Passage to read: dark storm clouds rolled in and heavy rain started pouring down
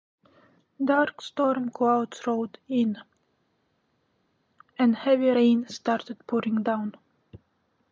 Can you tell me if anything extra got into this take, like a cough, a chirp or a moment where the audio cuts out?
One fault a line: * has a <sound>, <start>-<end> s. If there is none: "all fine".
all fine